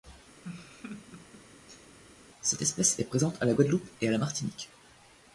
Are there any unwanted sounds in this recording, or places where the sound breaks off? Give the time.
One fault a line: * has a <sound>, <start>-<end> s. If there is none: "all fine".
* has a laugh, 0.4-2.0 s